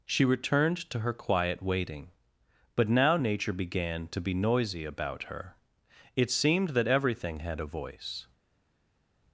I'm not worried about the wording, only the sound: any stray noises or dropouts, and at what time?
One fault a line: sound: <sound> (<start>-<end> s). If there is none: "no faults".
no faults